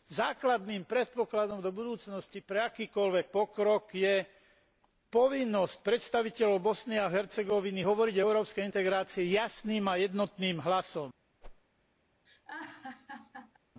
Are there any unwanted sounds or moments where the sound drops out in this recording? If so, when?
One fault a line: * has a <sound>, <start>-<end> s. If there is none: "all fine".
* has a whoosh, 11.4-11.6 s
* has a laugh, 12.3-13.6 s